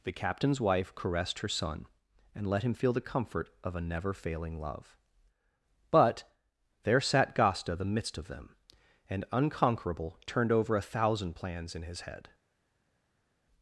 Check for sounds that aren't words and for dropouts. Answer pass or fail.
pass